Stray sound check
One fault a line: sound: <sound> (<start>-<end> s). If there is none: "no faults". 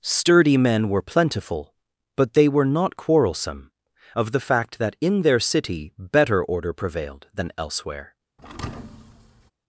sound: thud (8.4-9.5 s)